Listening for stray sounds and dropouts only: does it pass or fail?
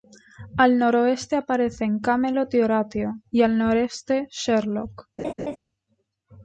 fail